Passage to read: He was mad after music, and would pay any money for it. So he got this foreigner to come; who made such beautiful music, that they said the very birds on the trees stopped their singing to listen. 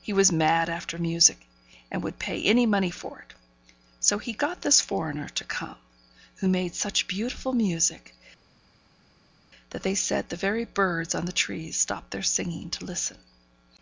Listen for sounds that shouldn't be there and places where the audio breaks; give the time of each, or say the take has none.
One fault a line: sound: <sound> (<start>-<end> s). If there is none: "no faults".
no faults